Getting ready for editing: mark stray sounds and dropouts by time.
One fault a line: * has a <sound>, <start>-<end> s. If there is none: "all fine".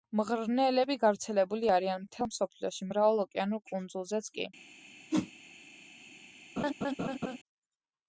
* has a whoosh, 5.1-5.3 s
* has a laugh, 6.6-7.4 s